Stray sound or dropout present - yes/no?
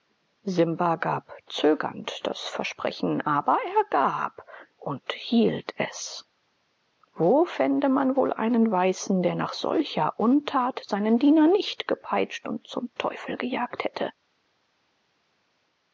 no